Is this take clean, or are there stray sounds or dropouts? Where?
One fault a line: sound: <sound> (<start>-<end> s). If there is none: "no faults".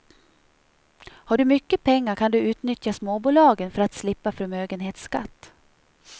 no faults